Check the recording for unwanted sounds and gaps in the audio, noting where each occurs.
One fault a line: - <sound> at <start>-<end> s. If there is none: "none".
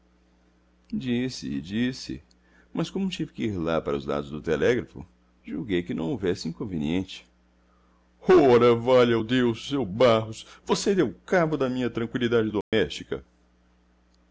- dropout at 12.6-12.7 s